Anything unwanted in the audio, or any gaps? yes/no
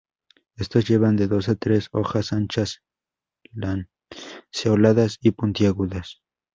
no